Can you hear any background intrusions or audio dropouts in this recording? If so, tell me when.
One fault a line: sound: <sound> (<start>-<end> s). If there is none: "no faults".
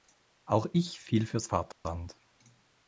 sound: dropout (1.7-1.8 s)